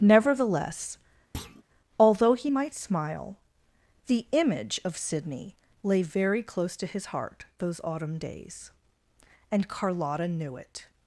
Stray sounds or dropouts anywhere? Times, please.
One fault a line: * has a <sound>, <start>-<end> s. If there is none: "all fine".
* has a thud, 1.3-1.6 s